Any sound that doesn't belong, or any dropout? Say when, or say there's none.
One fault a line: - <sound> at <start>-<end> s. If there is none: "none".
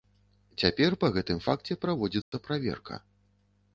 - dropout at 2.2-2.3 s